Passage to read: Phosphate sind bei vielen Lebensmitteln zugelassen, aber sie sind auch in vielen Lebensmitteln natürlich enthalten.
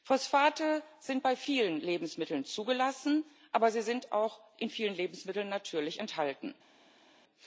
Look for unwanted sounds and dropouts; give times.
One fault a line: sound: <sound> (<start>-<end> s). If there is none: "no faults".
no faults